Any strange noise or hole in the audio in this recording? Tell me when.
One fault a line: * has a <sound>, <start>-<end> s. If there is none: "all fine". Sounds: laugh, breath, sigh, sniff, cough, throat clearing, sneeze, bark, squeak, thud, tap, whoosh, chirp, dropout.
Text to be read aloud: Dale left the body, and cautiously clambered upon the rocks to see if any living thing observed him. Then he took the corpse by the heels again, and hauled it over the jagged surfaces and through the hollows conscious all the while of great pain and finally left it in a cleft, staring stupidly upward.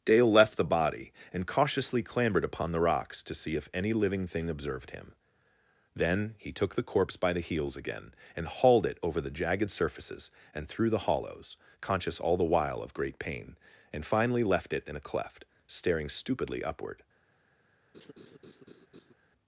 * has a laugh, 17.9-19.1 s